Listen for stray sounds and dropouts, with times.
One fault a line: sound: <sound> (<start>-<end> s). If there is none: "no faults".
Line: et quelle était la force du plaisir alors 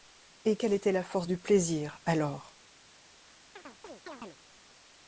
sound: chirp (3.6-4.4 s)